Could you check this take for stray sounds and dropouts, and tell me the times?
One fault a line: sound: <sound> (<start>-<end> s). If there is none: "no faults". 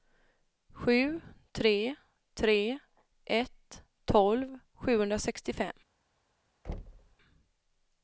sound: thud (6.6-7.2 s)